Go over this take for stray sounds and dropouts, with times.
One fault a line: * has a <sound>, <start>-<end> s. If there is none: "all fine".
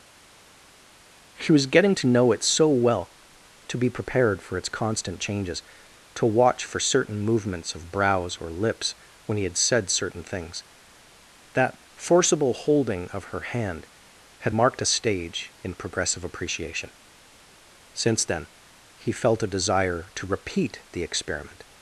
all fine